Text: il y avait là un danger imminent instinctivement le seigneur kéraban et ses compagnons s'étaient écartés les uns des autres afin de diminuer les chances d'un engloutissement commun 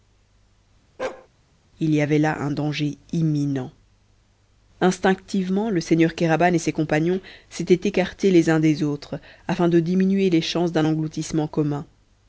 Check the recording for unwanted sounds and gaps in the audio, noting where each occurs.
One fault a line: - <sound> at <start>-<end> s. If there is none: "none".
- bark at 1.0-1.3 s